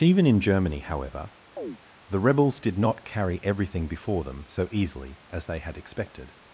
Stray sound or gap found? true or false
true